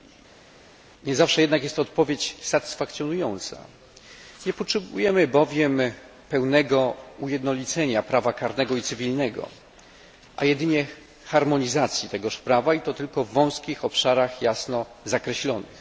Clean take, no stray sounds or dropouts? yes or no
yes